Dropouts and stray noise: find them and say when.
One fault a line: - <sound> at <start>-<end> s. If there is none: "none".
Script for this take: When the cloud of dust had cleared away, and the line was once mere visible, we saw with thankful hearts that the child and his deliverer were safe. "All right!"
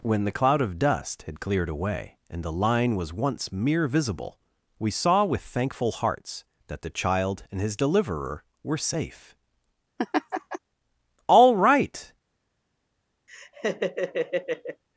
- laugh at 10.0-10.6 s
- laugh at 13.3-14.8 s